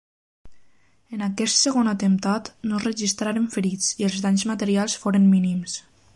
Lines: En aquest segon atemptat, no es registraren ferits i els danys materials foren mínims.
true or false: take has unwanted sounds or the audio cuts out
false